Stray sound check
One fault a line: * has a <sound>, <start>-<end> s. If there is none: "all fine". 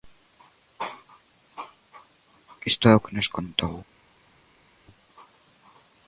all fine